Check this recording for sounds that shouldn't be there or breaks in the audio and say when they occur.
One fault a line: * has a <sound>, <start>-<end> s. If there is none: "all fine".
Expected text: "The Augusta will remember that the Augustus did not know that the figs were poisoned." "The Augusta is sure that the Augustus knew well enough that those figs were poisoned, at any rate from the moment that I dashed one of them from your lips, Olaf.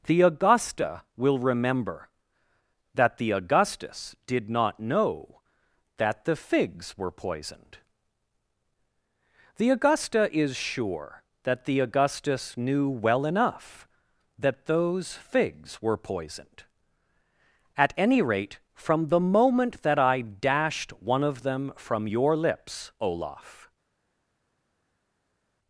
all fine